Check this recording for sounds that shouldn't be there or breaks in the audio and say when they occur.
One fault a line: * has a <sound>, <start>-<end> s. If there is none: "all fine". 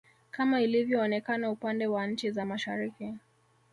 all fine